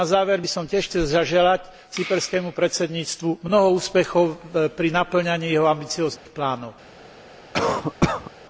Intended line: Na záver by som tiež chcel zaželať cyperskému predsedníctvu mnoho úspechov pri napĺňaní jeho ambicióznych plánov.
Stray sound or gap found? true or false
true